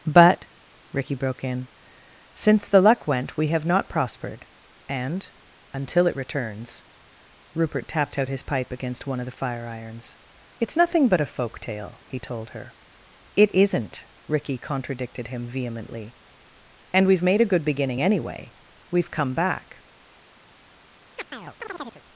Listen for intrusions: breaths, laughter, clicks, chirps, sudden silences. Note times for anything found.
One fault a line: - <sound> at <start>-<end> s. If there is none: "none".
- chirp at 21.2-22.0 s